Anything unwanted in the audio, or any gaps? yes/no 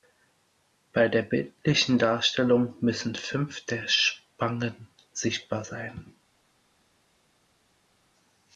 no